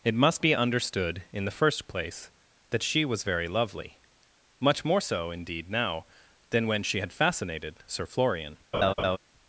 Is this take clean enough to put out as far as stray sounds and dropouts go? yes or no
no